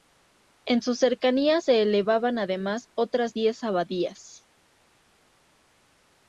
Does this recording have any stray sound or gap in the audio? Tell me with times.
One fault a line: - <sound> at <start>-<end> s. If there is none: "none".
none